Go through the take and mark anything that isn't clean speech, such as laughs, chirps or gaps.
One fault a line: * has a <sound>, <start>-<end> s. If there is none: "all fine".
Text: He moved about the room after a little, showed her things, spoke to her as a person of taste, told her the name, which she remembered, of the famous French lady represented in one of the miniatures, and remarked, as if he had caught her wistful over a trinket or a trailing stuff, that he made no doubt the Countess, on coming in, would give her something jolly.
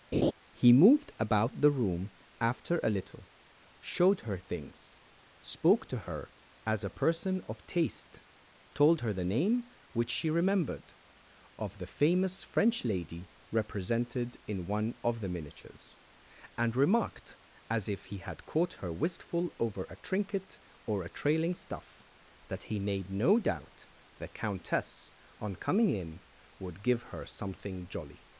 * has a laugh, 0.1-0.3 s